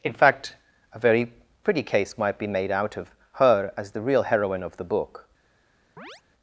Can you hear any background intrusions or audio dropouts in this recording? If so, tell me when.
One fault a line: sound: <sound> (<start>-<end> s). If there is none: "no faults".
sound: chirp (6.0-6.2 s)